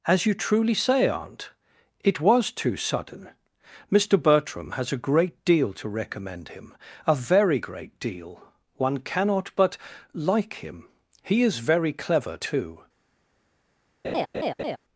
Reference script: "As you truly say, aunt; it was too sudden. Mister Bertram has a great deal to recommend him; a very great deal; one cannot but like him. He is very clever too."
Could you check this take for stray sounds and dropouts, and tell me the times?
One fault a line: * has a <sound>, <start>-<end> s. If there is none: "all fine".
* has a laugh, 14.0-14.8 s